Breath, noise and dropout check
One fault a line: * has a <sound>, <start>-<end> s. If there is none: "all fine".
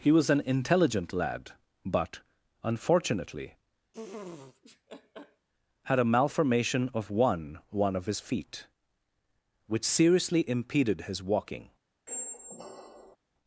* has a laugh, 3.9-5.5 s
* has a squeak, 12.1-13.2 s